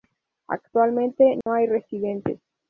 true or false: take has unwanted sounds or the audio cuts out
true